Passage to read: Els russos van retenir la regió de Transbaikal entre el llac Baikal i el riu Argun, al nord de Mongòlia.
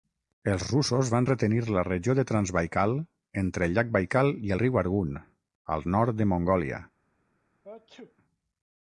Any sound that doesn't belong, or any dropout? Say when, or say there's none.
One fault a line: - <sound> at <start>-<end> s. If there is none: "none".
- sneeze at 7.6-8.2 s